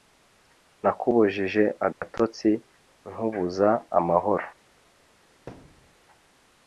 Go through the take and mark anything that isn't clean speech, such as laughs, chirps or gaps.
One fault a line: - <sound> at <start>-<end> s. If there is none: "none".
- dropout at 1.9-2.0 s
- thud at 5.5-6.0 s